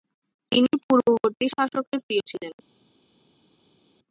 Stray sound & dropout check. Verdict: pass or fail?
pass